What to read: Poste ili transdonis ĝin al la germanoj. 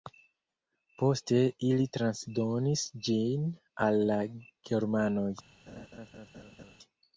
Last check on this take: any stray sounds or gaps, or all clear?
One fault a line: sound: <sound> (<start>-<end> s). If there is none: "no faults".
sound: laugh (5.7-6.8 s)